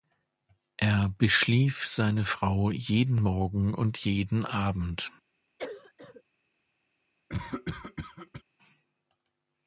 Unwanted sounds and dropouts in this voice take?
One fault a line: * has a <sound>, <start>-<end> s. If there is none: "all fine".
* has a cough, 5.6-6.2 s
* has a cough, 7.3-8.4 s